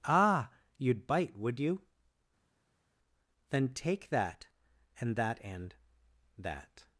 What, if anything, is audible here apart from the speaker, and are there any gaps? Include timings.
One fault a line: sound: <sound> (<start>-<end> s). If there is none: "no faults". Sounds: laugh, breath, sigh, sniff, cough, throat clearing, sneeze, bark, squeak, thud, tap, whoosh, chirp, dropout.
no faults